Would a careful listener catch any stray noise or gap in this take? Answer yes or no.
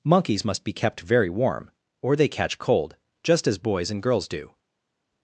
no